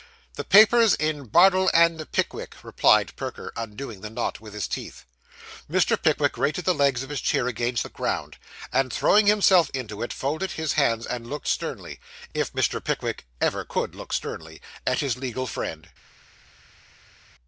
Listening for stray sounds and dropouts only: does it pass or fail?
pass